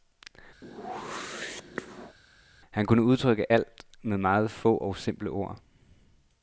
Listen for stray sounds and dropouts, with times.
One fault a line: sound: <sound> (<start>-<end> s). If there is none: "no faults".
sound: whoosh (0.6-2.2 s)